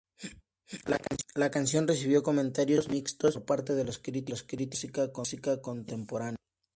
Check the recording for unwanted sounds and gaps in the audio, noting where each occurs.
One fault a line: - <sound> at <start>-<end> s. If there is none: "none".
none